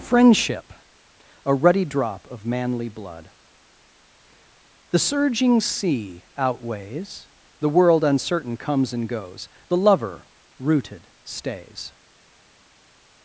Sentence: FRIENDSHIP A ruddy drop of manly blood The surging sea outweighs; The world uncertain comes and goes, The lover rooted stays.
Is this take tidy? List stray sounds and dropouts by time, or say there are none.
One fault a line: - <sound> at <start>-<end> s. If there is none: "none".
none